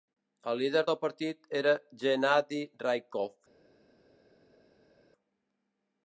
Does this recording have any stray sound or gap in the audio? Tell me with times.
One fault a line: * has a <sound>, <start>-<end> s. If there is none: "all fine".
all fine